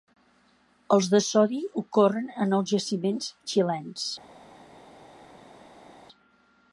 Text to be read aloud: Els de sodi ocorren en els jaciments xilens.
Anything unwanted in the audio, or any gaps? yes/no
no